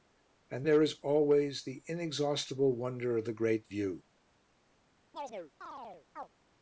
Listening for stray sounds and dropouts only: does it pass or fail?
fail